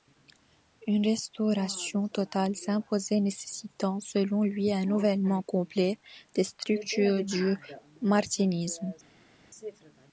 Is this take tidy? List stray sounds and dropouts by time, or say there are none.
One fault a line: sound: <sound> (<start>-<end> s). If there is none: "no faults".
no faults